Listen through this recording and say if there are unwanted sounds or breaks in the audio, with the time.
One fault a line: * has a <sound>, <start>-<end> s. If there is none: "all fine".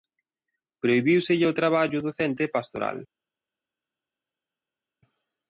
all fine